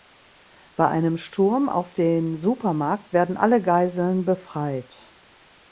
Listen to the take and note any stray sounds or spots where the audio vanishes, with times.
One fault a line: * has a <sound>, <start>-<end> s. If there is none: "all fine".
all fine